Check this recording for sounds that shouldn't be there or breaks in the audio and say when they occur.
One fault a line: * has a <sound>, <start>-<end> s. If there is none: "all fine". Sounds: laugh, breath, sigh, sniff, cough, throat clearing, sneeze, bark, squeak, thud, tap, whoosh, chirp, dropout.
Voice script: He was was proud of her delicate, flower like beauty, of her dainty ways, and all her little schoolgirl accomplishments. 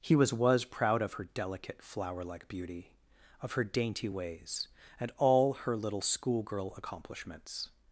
all fine